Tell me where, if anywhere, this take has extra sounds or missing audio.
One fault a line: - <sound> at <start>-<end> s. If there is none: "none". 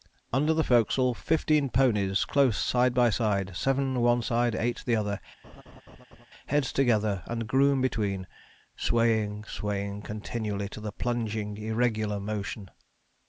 - laugh at 5.4-6.3 s